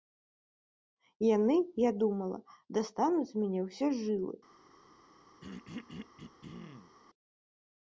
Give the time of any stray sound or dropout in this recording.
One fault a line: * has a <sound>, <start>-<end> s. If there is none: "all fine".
* has a throat clearing, 5.4-7.0 s